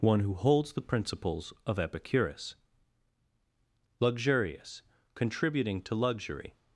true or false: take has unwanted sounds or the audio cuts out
false